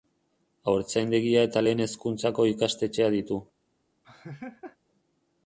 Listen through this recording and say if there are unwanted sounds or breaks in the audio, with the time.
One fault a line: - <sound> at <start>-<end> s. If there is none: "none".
- laugh at 4.0-4.8 s